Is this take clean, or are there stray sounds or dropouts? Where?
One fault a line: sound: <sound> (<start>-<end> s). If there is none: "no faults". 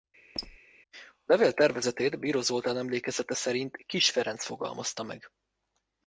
sound: squeak (0.3-0.6 s)